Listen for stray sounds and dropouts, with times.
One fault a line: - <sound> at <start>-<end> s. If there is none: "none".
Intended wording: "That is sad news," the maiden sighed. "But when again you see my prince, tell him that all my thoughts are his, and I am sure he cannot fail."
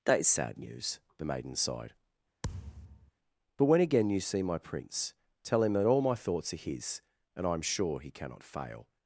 - thud at 2.4-3.1 s